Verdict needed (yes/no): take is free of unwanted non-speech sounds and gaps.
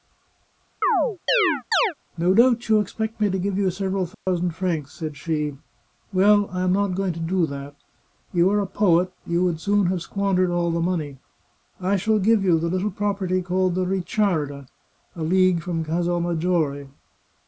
no